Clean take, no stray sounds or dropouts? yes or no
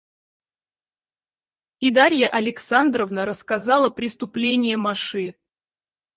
yes